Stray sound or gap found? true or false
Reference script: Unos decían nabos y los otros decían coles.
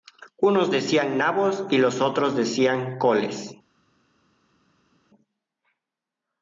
false